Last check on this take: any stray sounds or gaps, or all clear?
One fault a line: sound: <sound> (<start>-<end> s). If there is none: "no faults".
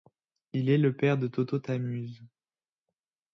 no faults